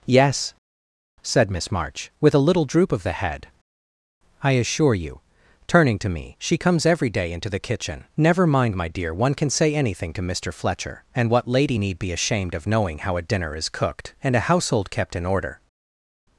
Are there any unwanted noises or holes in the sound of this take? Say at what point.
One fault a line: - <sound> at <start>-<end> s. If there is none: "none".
none